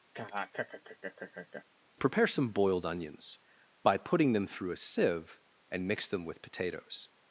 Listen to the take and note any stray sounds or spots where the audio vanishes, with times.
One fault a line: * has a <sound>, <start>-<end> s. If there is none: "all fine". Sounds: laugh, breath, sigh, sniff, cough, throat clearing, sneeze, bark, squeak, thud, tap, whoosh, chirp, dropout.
* has a laugh, 0.1-1.6 s